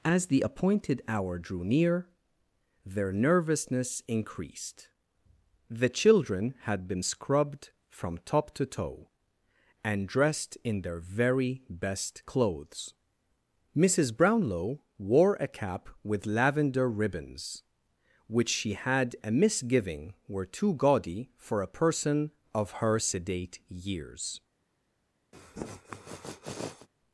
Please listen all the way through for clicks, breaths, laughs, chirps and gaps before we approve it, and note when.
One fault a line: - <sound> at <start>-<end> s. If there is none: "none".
- sniff at 25.3-26.9 s